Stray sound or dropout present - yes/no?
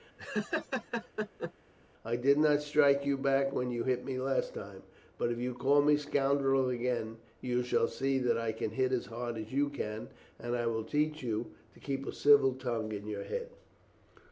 yes